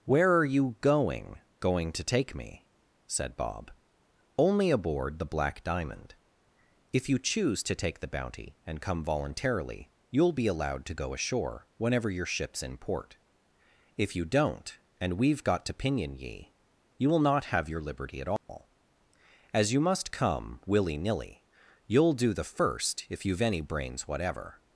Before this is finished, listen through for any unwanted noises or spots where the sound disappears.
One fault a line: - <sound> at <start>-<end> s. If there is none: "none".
- dropout at 18.4-18.5 s